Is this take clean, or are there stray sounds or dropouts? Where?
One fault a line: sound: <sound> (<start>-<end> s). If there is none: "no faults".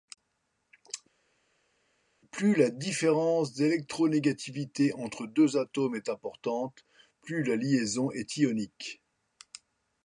no faults